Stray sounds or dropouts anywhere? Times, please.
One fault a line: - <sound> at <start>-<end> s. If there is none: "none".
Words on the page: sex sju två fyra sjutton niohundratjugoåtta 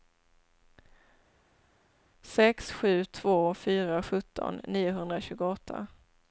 none